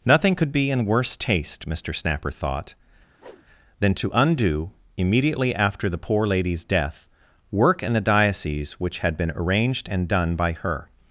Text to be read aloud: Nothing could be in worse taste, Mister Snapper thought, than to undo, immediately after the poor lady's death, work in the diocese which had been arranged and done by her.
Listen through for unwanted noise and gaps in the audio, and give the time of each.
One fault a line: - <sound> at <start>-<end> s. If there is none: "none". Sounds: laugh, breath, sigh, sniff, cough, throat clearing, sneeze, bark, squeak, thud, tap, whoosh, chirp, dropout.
- whoosh at 3.2-3.5 s